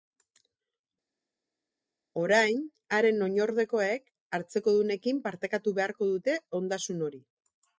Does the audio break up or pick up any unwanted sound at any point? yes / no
no